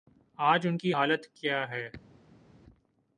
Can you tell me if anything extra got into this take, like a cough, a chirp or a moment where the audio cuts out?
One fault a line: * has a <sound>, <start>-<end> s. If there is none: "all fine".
all fine